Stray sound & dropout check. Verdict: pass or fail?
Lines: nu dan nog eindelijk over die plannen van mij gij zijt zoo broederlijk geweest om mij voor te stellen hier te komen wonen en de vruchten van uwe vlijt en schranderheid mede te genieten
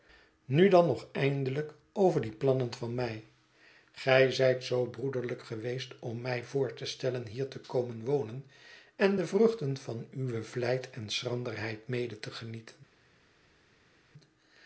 pass